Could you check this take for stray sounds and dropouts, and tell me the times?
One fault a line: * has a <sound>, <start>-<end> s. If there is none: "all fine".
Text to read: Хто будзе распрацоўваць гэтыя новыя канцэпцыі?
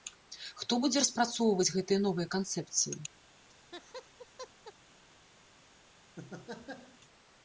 * has a laugh, 3.4-4.7 s
* has a laugh, 6.2-7.0 s